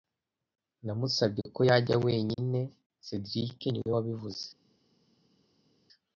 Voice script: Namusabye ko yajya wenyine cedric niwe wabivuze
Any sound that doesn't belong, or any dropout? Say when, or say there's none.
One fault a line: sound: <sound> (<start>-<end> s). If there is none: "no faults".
no faults